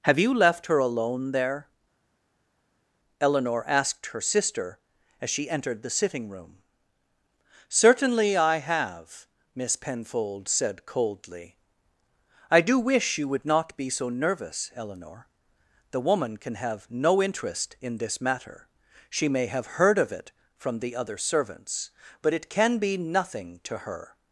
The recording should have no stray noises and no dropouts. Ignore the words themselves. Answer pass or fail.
pass